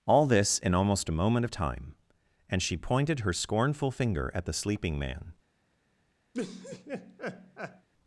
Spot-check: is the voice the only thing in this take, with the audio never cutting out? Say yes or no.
no